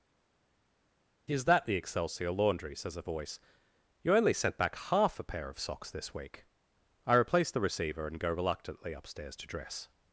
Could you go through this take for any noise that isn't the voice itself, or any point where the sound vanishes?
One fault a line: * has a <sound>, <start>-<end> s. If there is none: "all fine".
all fine